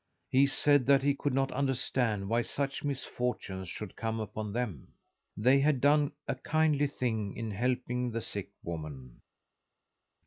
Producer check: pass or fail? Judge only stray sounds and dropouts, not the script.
pass